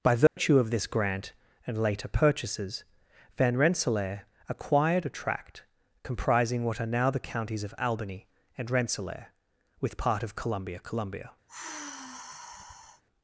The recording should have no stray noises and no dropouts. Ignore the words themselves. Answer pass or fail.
fail